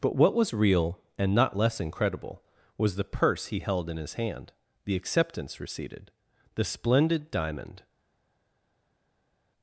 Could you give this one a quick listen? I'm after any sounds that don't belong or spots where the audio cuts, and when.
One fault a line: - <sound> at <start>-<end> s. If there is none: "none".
none